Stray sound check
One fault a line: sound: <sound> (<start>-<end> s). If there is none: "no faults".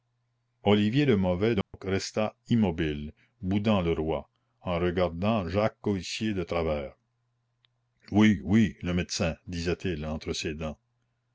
sound: dropout (1.6-1.7 s)